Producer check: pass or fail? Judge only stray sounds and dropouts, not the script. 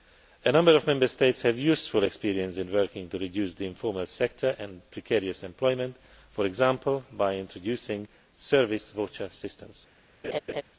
fail